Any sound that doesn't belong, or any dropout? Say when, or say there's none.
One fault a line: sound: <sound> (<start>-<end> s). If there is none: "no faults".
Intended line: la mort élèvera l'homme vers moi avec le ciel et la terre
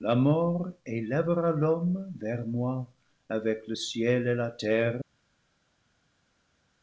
no faults